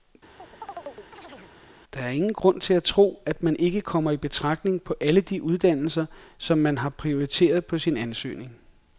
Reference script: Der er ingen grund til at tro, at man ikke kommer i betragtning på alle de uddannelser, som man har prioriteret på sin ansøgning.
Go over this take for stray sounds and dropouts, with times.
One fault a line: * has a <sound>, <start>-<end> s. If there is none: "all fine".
* has a chirp, 0.4-1.5 s